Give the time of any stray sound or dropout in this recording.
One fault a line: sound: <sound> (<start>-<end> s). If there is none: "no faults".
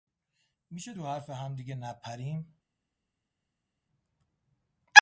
no faults